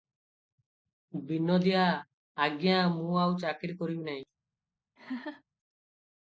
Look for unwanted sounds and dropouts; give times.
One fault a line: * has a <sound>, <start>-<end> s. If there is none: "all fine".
* has a laugh, 5.0-5.4 s